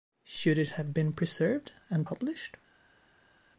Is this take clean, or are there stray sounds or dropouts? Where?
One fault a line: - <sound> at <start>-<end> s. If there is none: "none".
none